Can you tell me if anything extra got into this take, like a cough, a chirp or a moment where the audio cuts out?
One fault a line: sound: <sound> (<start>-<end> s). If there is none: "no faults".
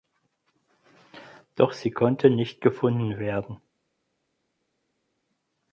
no faults